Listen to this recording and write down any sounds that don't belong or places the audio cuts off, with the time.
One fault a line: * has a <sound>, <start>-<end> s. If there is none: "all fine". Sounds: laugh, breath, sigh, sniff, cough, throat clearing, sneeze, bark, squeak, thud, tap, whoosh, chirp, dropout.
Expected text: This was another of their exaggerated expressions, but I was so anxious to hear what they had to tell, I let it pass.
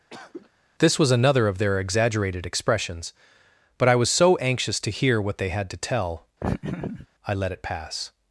* has a cough, 0.1-0.5 s
* has a laugh, 6.4-7.1 s